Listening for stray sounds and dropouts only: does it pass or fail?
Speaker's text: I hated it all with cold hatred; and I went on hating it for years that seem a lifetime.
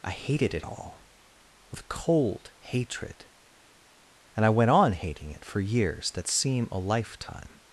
pass